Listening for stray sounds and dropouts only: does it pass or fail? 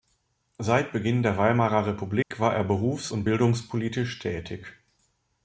fail